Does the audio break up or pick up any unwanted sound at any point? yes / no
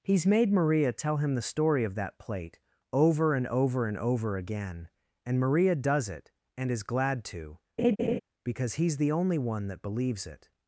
yes